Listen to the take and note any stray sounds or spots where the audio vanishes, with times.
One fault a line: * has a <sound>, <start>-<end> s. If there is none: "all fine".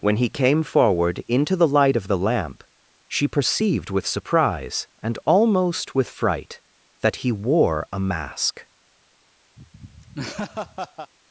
* has a laugh, 9.6-11.1 s